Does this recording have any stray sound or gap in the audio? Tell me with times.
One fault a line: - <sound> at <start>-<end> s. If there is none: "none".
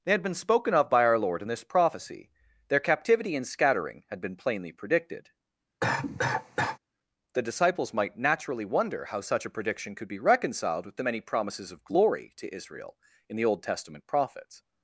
- cough at 5.8-6.8 s